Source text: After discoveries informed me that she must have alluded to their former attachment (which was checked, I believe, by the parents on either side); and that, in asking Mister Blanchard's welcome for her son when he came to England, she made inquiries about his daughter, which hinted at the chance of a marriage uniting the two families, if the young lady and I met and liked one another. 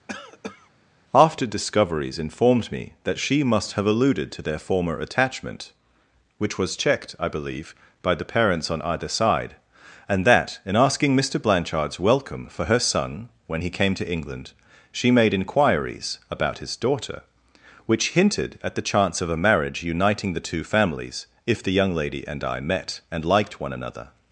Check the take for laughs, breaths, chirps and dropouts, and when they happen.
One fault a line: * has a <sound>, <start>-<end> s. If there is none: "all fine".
* has a cough, 0.1-0.7 s